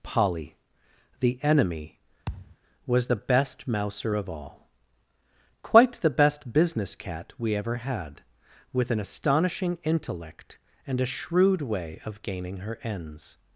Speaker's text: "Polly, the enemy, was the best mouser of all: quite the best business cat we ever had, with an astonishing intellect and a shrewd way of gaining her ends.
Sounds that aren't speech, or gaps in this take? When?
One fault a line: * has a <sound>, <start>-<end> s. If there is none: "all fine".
* has a thud, 2.3-2.6 s